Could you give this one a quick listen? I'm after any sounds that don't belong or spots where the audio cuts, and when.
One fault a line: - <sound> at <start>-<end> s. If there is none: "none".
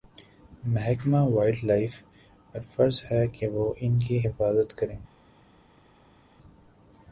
none